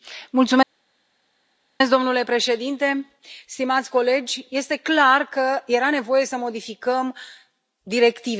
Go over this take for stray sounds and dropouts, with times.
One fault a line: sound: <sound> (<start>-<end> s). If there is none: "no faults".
no faults